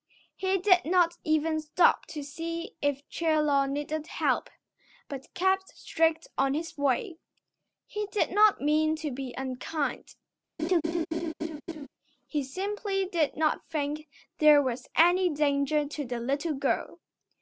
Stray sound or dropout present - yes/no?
yes